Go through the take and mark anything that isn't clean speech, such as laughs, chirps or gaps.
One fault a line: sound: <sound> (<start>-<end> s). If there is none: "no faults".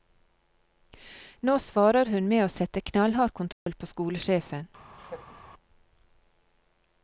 sound: dropout (3.5-3.7 s)
sound: laugh (5.0-5.4 s)